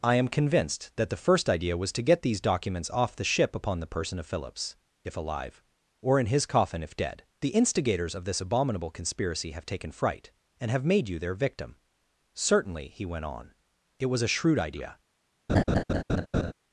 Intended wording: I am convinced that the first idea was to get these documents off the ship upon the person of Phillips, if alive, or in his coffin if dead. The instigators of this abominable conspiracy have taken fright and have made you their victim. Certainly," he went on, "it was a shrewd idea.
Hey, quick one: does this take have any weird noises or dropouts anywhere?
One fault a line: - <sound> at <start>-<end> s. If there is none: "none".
- laugh at 15.5-16.5 s